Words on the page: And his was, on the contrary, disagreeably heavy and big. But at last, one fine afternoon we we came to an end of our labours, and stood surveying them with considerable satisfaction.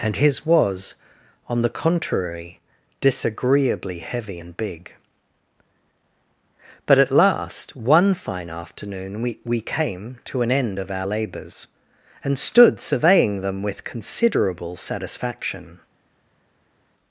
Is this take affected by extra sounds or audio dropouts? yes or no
no